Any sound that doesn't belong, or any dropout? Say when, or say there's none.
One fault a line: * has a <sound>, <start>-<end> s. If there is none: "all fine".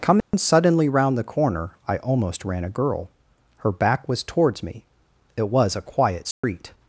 * has a dropout, 0.2-0.3 s
* has a dropout, 6.3-6.4 s